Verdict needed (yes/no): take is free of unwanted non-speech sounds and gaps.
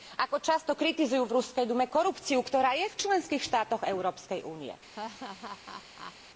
no